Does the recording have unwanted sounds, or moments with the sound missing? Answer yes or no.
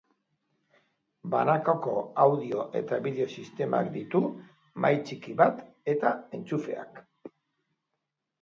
no